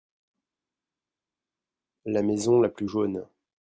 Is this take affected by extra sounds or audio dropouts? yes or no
no